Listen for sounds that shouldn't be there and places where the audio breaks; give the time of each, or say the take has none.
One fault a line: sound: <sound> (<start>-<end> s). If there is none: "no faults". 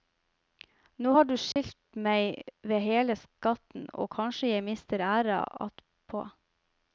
sound: dropout (1.5-1.6 s)